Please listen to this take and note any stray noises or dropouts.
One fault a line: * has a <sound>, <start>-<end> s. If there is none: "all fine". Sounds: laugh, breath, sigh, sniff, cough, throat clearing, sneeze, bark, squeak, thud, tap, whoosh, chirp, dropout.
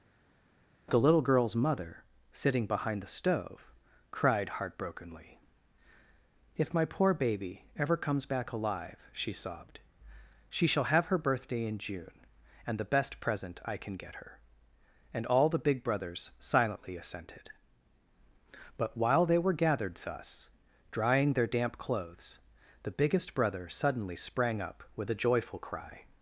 all fine